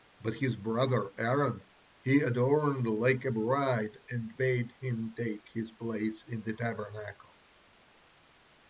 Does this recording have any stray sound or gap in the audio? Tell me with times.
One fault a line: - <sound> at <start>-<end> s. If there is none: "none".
none